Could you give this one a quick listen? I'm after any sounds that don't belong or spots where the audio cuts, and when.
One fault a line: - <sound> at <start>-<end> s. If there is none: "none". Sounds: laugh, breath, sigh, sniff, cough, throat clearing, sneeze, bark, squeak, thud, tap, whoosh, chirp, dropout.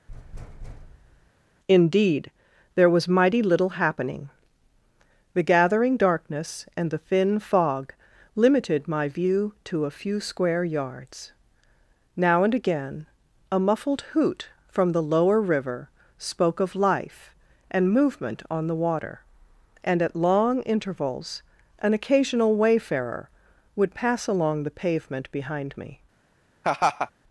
- thud at 0.1-1.3 s
- laugh at 26.6-27.1 s